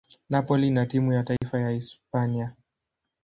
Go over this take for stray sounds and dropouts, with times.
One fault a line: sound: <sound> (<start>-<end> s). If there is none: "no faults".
sound: dropout (1.4-1.4 s)